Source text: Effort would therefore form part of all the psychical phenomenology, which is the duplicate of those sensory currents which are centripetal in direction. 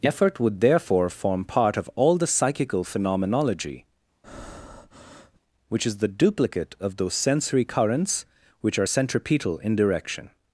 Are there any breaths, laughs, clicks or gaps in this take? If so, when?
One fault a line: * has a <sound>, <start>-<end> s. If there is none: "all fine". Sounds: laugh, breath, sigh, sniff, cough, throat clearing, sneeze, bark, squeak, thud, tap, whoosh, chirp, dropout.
* has a breath, 4.2-5.4 s